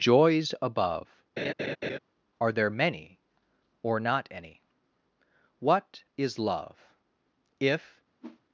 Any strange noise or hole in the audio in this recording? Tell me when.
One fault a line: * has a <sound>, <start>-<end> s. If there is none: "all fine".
* has a laugh, 1.4-2.0 s
* has a whoosh, 8.2-8.4 s